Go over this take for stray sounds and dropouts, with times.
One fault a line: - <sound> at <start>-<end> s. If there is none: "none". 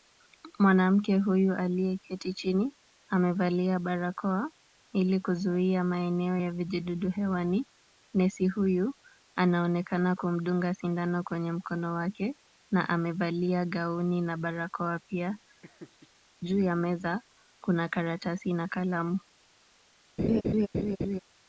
- laugh at 15.6-16.1 s
- laugh at 20.2-21.2 s